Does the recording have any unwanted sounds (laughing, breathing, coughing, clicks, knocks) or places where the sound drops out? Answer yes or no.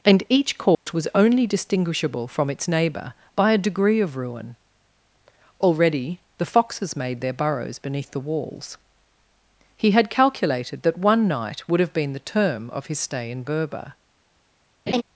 yes